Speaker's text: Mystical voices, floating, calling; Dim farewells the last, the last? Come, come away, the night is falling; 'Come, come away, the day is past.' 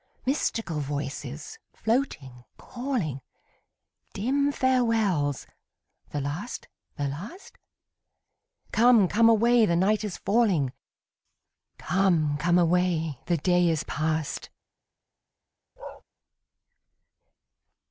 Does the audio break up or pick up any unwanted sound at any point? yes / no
yes